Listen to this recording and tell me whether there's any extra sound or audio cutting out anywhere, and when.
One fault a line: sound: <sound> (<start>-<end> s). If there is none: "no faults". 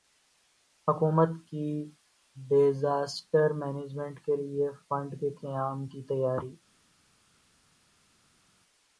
no faults